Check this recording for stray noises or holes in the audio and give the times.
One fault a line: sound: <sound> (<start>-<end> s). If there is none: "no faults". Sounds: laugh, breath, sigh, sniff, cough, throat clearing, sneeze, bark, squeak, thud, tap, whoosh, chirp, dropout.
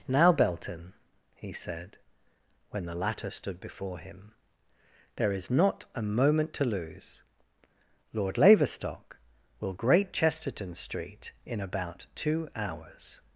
no faults